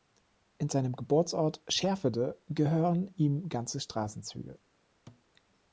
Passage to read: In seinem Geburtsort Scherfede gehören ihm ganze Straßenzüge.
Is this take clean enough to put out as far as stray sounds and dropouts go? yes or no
no